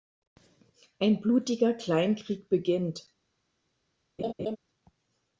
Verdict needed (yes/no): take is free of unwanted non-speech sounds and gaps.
no